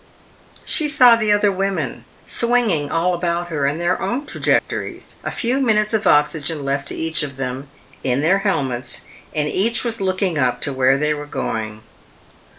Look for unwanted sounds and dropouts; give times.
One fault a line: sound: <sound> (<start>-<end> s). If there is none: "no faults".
sound: dropout (4.6-4.7 s)